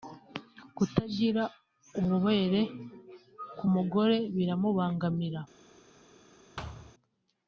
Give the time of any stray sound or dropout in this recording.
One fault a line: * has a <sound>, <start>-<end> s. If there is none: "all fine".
* has a thud, 6.6-6.9 s